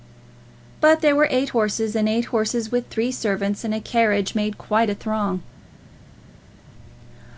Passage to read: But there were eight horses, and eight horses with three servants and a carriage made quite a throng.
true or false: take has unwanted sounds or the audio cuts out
false